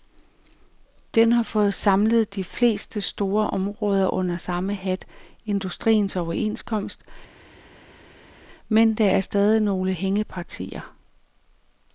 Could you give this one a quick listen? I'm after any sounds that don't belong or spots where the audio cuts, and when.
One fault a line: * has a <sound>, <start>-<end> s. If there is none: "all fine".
all fine